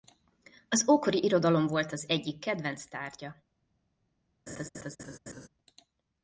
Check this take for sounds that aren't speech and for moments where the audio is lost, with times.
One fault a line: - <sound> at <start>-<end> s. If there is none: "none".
- laugh at 4.5-5.5 s